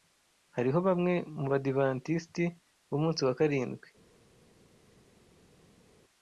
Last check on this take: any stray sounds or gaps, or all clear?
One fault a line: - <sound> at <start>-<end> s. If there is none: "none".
none